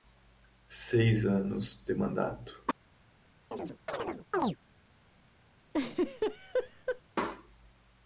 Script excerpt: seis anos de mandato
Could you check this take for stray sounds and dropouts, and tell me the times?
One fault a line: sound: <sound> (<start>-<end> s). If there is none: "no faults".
sound: chirp (3.5-4.6 s)
sound: laugh (5.7-7.0 s)